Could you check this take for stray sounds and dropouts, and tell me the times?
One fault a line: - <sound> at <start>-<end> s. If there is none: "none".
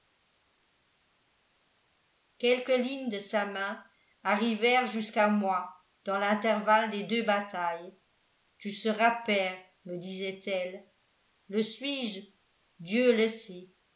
none